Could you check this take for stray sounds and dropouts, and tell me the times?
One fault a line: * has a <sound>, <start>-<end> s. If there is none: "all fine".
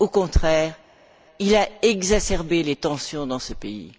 all fine